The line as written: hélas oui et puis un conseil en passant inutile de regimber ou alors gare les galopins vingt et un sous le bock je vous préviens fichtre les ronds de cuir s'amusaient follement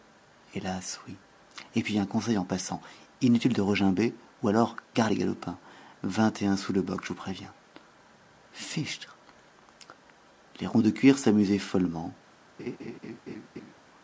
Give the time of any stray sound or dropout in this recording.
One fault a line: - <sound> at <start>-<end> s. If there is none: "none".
- laugh at 12.6-13.7 s